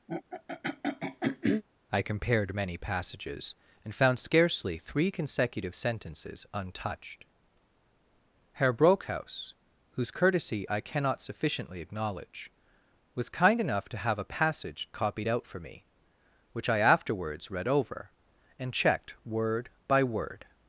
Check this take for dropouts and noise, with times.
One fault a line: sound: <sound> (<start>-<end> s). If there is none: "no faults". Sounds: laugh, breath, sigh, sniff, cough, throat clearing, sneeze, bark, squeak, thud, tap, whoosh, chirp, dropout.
sound: throat clearing (0.1-1.6 s)